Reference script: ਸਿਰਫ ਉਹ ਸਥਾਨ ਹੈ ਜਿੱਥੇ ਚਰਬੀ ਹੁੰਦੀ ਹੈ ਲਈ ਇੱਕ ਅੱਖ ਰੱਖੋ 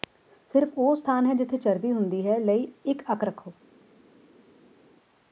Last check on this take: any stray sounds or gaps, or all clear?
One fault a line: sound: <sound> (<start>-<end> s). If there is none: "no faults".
no faults